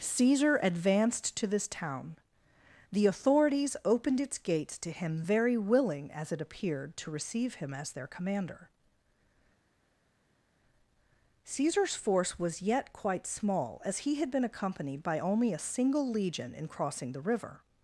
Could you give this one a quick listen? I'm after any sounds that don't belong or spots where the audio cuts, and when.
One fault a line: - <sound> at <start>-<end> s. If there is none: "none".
none